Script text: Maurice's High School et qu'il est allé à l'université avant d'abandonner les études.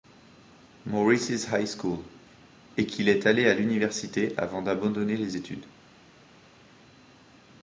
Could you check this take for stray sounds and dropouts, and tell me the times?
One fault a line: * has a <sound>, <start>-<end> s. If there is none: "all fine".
all fine